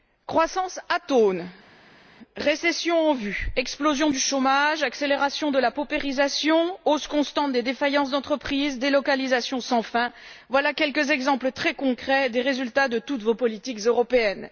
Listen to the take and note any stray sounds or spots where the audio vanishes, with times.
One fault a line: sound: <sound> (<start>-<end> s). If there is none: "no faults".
no faults